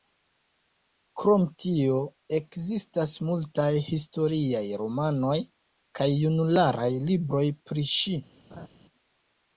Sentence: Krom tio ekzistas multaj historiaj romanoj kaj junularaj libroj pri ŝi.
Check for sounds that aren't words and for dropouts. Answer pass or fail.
fail